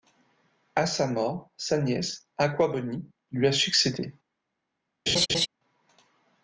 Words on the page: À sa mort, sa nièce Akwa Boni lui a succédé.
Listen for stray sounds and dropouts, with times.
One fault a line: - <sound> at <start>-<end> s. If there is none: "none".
- laugh at 5.1-5.5 s